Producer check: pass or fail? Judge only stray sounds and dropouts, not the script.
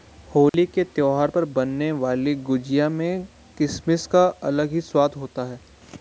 fail